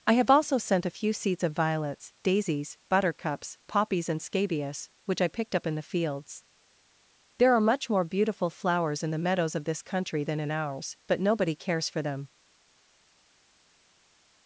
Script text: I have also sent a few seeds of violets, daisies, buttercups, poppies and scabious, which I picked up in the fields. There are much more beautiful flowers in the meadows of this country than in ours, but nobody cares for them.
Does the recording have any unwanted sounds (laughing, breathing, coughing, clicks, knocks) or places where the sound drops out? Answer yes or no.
no